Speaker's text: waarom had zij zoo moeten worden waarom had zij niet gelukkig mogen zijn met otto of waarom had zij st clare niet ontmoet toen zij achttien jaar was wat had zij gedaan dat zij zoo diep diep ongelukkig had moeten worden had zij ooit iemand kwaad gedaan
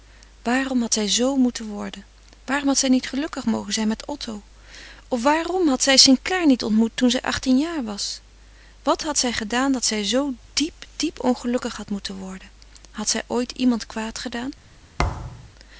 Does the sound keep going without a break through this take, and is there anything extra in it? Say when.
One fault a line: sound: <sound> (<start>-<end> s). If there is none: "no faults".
sound: thud (15.0-15.5 s)